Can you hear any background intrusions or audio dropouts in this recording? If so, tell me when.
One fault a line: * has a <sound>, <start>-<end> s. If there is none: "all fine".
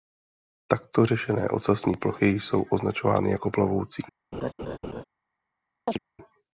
* has a laugh, 4.3-5.0 s
* has a chirp, 5.9-6.0 s